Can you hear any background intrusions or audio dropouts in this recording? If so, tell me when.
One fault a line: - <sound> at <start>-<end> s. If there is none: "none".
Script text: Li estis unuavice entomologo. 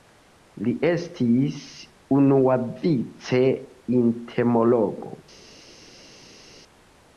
none